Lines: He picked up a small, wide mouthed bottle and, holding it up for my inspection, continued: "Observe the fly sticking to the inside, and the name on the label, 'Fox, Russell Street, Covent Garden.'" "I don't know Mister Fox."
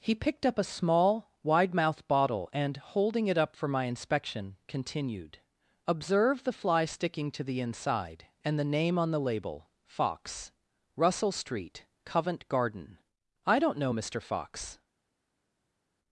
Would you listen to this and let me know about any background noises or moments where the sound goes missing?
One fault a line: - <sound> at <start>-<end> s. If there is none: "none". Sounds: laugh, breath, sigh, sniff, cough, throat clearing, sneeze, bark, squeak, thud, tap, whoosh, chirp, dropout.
none